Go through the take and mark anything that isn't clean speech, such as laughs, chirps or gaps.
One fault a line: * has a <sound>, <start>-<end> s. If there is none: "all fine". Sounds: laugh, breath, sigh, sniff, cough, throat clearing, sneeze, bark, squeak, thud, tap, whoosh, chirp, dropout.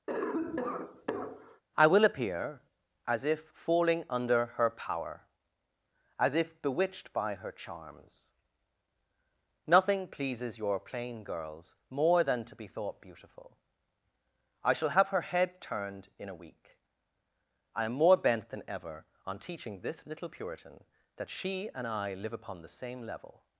* has a cough, 0.1-1.6 s